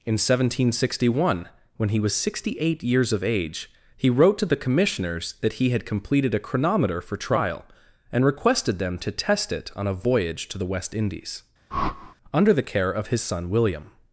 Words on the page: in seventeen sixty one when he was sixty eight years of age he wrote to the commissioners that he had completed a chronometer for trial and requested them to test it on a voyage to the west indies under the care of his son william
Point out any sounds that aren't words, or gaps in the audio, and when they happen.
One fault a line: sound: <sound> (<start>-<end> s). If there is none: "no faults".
sound: whoosh (11.7-12.2 s)